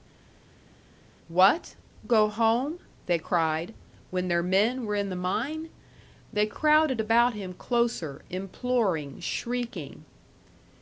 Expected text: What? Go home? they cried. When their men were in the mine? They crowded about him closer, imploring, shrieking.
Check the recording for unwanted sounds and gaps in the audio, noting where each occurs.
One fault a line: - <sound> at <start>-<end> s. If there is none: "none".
none